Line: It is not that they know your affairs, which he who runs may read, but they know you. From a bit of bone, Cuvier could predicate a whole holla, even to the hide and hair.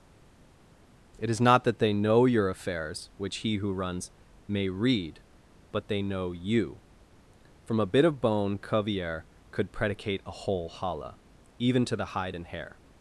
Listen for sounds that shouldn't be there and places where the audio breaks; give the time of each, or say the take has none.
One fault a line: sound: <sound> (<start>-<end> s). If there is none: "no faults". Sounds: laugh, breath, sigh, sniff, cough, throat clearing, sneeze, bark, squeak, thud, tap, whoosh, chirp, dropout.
no faults